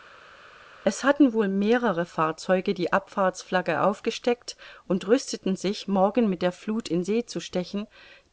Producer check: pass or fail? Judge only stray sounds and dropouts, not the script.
pass